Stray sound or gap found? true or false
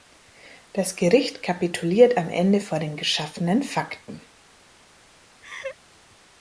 true